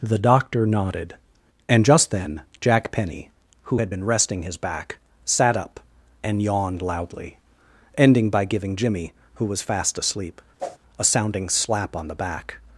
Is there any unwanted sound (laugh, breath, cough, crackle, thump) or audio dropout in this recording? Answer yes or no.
yes